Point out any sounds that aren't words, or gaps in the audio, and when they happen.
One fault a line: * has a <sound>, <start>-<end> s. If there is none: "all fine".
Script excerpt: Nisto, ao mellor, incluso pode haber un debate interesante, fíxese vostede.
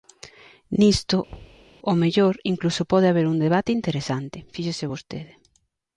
* has a thud, 1.3-1.7 s